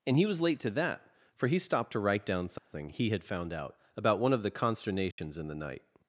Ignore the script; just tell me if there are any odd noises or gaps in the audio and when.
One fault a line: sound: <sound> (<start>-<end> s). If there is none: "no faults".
sound: dropout (2.6-2.7 s)
sound: dropout (5.1-5.2 s)